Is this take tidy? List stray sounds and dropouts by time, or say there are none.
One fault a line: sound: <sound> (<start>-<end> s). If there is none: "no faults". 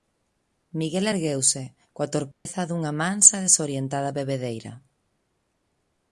sound: dropout (2.3-2.5 s)